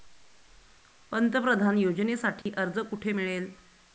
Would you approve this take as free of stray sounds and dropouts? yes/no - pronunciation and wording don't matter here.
no